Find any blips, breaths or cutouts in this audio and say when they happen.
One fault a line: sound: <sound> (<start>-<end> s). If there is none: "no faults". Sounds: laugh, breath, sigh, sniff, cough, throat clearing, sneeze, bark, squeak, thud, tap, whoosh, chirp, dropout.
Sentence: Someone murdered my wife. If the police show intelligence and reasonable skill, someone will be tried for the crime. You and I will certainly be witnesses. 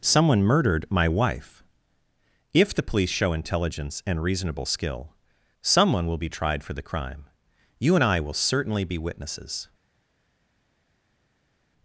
no faults